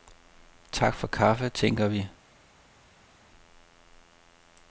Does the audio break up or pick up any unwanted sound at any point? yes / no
no